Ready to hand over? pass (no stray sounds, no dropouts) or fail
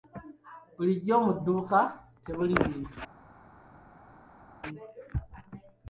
pass